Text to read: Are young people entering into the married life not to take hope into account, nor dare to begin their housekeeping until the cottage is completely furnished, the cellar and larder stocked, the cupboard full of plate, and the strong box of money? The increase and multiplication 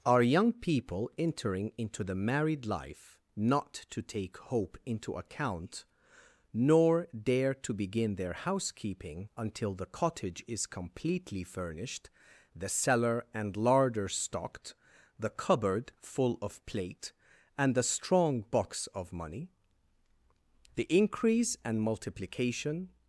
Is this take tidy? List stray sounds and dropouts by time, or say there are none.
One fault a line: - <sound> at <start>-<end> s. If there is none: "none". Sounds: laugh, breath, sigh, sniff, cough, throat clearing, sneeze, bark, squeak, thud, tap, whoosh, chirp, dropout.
none